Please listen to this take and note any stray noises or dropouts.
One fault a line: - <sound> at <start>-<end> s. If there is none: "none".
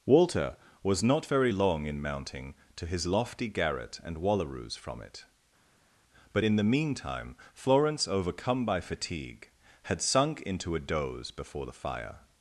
none